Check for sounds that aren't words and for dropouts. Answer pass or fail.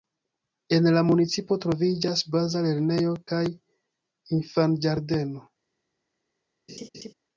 fail